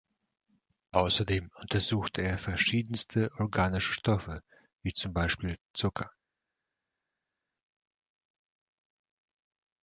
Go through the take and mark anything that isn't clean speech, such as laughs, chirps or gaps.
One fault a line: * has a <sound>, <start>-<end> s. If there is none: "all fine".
all fine